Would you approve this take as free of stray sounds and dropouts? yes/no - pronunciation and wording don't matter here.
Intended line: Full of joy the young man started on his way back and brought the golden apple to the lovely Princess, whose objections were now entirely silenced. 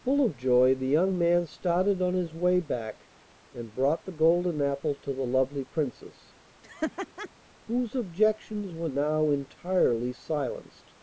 no